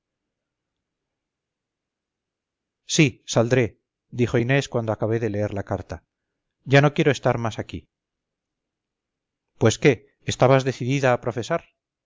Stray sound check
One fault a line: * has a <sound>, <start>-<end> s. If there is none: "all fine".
all fine